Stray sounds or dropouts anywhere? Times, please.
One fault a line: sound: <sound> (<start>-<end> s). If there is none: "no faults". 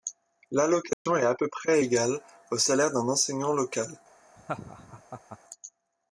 sound: dropout (0.9-1.1 s)
sound: laugh (4.4-5.4 s)